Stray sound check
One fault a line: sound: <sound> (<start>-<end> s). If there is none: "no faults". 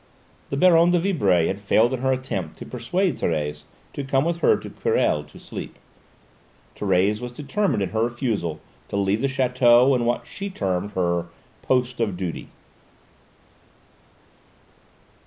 no faults